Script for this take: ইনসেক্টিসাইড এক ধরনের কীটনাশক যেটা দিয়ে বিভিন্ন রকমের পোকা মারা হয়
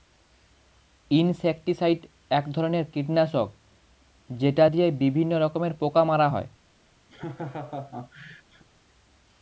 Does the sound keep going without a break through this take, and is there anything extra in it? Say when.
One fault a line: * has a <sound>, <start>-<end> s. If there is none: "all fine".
* has a laugh, 7.1-8.6 s